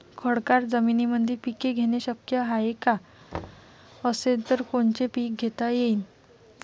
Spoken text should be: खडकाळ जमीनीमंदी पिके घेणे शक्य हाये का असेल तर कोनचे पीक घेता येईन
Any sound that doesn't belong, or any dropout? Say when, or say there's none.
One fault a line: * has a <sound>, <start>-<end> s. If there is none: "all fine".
* has a thud, 3.3-3.7 s